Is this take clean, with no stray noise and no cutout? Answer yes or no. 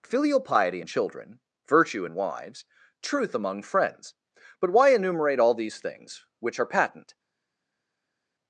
yes